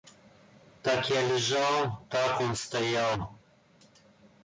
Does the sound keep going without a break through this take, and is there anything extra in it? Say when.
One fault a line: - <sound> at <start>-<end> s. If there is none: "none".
none